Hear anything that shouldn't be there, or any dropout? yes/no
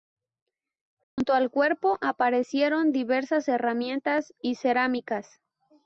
yes